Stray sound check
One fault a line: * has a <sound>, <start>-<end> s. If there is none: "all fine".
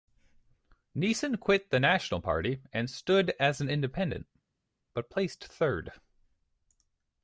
all fine